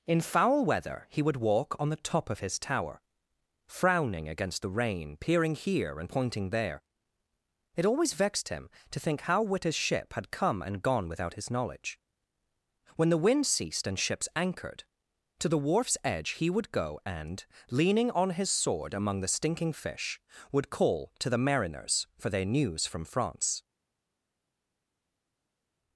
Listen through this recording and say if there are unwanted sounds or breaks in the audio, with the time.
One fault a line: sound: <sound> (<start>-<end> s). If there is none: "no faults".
no faults